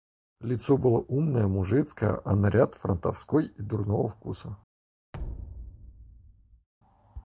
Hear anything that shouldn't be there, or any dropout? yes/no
yes